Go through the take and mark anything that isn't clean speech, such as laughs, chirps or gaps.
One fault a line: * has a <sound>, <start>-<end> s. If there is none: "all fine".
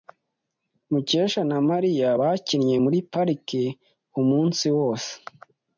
all fine